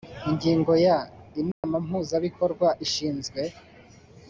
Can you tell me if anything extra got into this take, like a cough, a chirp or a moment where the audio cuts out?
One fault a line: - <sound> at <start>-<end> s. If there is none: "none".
- dropout at 1.5-1.6 s